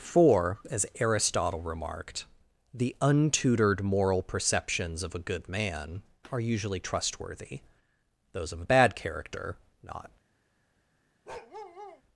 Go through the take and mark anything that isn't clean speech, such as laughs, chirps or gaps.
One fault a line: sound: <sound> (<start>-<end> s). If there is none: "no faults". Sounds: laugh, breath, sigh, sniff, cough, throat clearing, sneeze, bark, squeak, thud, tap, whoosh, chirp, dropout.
sound: bark (11.3-12.0 s)